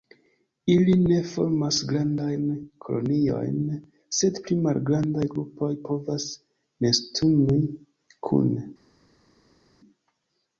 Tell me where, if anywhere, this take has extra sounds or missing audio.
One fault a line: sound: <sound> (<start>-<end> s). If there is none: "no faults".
no faults